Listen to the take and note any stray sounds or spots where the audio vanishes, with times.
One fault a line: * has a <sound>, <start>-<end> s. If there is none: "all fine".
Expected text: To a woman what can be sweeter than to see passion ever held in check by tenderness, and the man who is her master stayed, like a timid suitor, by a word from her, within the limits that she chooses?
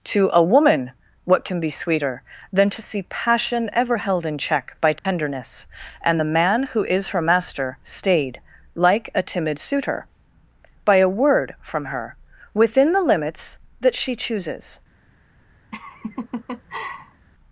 * has a dropout, 5.0-5.0 s
* has a laugh, 15.7-17.3 s